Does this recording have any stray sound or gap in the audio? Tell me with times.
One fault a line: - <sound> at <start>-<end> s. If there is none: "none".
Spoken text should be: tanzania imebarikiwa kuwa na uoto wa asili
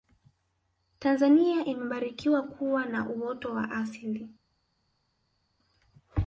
none